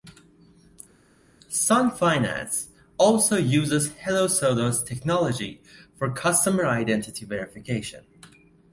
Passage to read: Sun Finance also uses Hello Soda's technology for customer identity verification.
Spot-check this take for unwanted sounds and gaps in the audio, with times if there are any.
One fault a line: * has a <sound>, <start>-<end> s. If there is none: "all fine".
all fine